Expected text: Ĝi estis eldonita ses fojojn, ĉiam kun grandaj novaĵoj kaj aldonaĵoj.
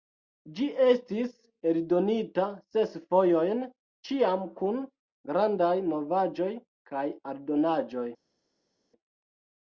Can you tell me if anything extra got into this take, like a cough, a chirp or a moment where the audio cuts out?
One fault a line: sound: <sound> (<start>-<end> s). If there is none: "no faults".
no faults